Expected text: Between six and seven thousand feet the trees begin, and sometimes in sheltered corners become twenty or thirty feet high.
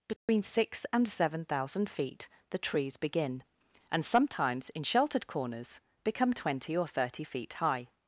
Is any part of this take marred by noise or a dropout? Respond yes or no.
yes